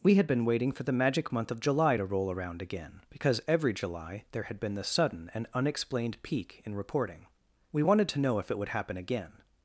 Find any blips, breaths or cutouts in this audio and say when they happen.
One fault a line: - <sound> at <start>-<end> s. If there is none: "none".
none